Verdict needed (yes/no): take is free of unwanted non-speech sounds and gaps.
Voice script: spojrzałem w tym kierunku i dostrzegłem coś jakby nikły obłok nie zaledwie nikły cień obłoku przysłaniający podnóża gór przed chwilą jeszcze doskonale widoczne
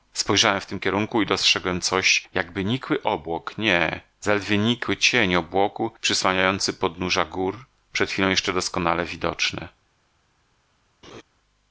no